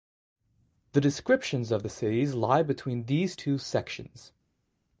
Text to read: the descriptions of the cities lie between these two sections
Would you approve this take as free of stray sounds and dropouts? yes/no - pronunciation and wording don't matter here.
yes